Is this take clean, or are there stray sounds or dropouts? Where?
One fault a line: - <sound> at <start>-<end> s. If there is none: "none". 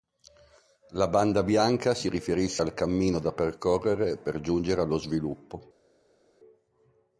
none